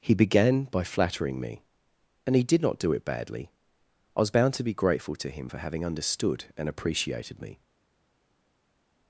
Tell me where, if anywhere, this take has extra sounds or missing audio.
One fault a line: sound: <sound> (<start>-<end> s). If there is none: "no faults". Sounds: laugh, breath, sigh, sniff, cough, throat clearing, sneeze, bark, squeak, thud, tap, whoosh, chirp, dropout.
no faults